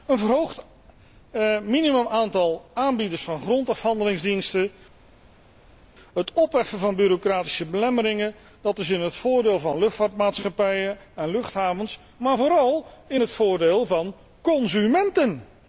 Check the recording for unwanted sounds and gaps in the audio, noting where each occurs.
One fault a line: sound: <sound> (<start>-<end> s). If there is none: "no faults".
no faults